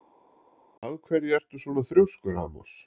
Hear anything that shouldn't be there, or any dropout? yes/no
no